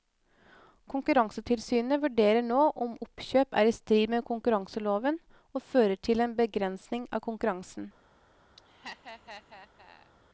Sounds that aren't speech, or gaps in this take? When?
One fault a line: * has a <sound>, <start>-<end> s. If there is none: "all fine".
* has a laugh, 8.6-10.1 s